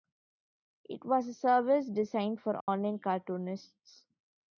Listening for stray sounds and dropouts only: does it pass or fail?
fail